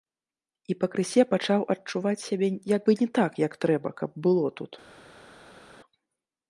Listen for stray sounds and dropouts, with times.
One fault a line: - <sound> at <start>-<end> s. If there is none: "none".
none